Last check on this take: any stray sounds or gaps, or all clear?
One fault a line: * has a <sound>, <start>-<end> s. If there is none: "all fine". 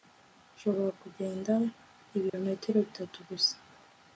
* has a dropout, 2.3-2.3 s